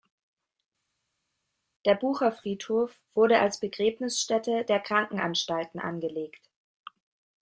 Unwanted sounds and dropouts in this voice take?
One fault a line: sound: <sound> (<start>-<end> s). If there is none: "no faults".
no faults